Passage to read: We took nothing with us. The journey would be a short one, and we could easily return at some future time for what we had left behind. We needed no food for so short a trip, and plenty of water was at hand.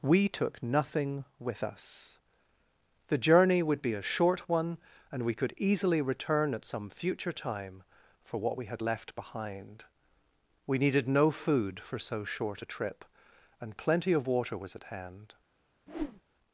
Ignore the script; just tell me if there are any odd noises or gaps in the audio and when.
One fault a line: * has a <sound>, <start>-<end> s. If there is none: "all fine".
* has a whoosh, 15.9-16.2 s